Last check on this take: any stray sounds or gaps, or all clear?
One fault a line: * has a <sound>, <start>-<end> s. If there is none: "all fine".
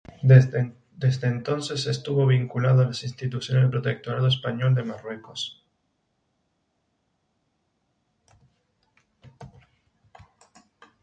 all fine